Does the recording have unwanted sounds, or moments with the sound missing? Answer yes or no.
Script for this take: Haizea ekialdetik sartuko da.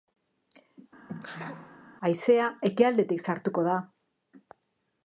yes